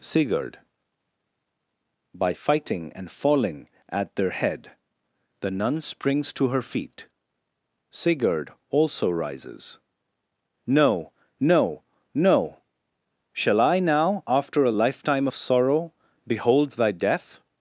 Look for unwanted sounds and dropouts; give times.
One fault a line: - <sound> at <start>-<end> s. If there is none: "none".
none